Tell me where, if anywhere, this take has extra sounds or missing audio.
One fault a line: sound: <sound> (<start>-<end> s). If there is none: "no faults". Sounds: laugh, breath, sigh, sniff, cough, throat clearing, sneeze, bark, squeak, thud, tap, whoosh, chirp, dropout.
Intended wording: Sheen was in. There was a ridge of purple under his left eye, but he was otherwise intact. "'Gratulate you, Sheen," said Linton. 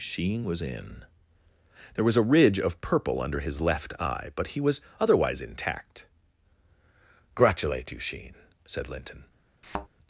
sound: thud (9.6-9.9 s)